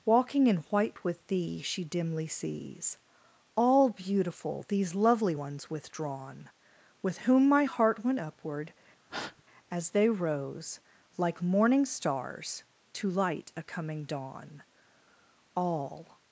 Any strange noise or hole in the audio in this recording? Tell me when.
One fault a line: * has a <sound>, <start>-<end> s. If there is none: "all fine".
* has a breath, 9.1-9.4 s